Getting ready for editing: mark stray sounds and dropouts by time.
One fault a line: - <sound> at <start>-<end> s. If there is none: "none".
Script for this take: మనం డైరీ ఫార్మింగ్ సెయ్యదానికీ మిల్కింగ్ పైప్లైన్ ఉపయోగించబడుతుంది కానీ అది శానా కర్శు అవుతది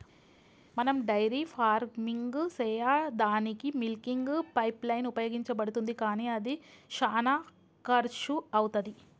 none